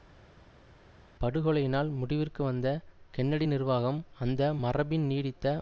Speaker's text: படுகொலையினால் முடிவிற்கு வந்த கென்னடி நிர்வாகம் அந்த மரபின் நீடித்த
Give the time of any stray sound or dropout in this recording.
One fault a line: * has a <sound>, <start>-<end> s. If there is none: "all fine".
all fine